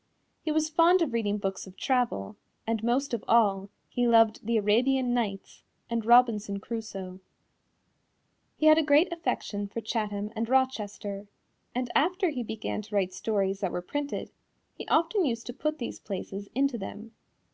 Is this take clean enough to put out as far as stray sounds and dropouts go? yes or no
yes